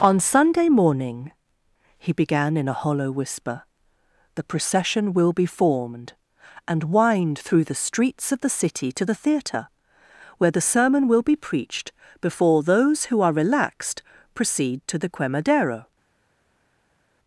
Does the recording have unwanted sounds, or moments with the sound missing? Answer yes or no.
no